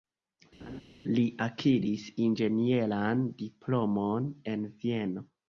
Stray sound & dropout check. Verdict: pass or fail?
fail